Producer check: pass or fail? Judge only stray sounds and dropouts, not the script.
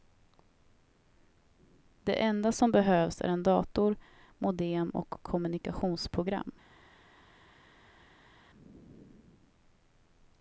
pass